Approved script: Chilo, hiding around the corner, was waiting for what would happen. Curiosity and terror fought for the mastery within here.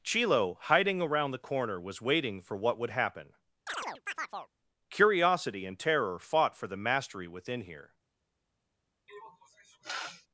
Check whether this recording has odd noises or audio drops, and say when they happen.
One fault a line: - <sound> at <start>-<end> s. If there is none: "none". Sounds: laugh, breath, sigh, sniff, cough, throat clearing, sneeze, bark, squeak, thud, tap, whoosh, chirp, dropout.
- chirp at 3.7-4.5 s
- sniff at 9.1-10.3 s